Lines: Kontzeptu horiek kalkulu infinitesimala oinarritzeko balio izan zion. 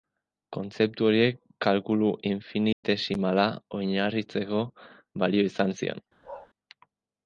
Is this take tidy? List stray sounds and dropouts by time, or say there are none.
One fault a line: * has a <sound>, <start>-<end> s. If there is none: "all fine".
* has a dropout, 2.7-2.8 s
* has a bark, 6.2-6.5 s